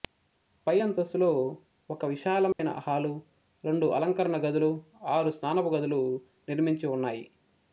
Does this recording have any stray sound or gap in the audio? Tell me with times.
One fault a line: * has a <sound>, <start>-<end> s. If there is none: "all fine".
* has a dropout, 2.5-2.6 s